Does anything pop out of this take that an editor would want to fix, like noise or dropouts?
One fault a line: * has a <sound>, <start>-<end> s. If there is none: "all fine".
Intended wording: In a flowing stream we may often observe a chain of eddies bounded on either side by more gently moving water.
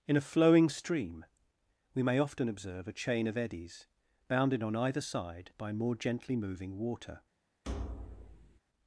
* has a thud, 7.6-8.6 s